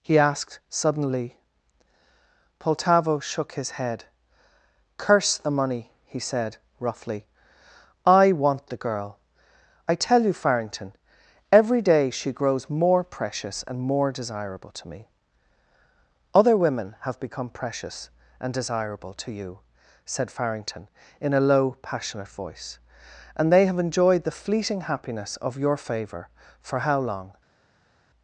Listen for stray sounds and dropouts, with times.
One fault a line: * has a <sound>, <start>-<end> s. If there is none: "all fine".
all fine